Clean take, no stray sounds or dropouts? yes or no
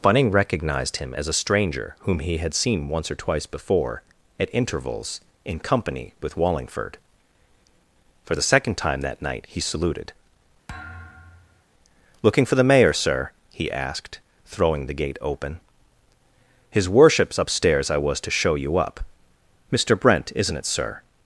no